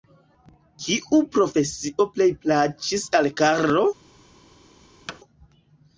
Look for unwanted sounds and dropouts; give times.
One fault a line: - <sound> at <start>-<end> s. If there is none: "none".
- thud at 5.1-5.2 s